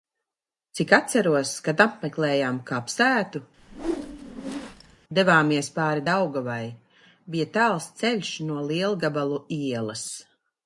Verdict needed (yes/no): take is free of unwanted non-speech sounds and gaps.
no